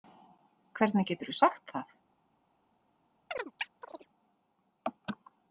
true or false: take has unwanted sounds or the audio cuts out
true